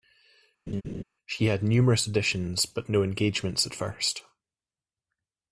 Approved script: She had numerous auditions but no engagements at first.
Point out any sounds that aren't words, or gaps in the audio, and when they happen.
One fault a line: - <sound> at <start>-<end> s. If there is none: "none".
- laugh at 0.7-1.0 s